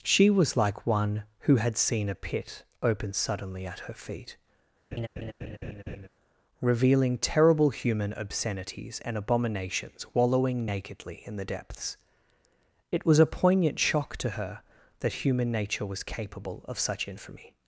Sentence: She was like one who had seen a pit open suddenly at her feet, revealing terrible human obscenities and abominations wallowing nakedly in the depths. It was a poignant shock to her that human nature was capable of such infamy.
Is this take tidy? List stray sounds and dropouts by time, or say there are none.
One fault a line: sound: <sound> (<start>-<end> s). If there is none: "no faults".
sound: laugh (4.9-6.1 s)